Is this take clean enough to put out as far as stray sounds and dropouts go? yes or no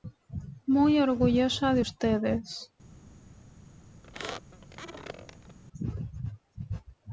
no